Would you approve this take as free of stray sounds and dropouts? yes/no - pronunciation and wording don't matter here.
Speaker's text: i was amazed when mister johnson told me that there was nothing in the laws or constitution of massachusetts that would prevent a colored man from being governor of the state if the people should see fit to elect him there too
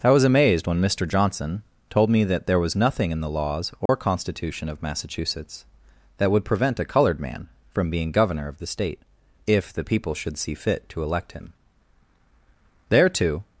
no